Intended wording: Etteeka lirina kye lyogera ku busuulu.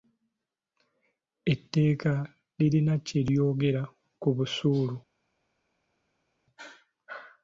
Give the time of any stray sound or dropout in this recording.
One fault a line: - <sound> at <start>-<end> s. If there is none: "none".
none